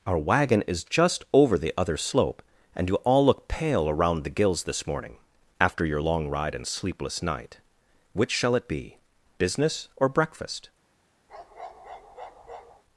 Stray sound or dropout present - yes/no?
yes